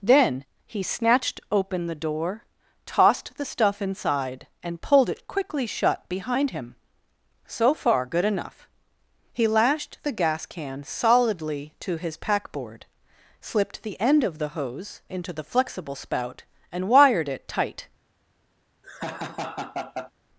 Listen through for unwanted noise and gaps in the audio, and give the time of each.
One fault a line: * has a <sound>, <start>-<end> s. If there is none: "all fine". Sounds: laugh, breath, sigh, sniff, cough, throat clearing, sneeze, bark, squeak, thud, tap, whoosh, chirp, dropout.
* has a laugh, 18.8-20.1 s